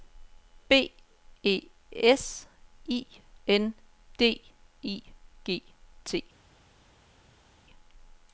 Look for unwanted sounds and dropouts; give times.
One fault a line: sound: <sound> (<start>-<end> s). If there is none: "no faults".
no faults